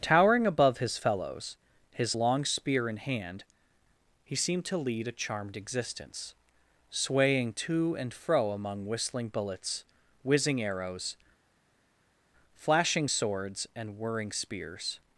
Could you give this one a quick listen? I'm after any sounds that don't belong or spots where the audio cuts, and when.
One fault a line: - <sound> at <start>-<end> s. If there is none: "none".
none